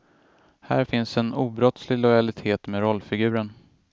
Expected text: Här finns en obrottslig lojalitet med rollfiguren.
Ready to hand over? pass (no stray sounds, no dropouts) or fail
pass